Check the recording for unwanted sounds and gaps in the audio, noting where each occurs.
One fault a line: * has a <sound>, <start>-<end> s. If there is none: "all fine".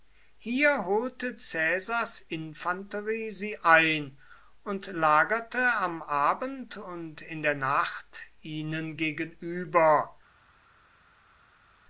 all fine